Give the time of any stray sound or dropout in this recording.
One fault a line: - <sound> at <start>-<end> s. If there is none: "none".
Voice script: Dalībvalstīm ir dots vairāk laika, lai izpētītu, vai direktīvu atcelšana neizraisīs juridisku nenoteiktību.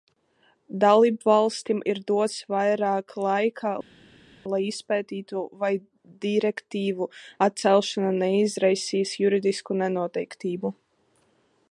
none